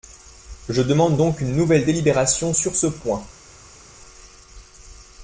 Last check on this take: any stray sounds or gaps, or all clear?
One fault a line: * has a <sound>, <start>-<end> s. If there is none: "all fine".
all fine